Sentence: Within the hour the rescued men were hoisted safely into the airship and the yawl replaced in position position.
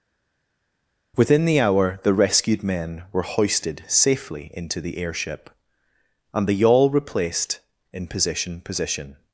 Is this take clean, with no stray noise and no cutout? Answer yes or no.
yes